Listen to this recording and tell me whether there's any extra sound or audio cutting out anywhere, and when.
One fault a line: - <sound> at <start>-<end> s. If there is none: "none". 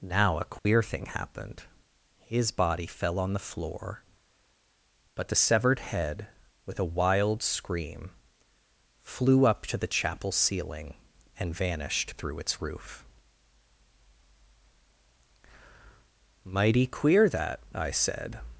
- dropout at 0.6-0.7 s